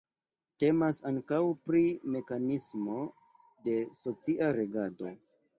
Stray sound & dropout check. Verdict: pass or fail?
pass